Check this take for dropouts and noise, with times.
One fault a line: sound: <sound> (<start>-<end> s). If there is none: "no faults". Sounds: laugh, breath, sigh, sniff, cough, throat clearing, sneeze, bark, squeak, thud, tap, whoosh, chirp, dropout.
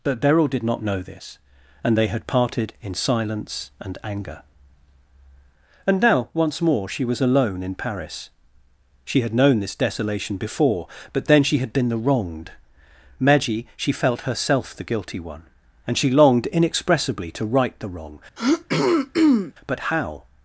sound: throat clearing (18.4-19.5 s)